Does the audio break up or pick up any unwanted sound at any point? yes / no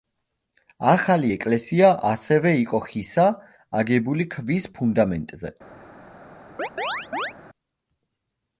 yes